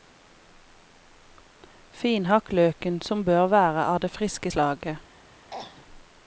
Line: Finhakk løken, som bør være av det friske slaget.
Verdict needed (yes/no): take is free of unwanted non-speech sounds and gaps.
no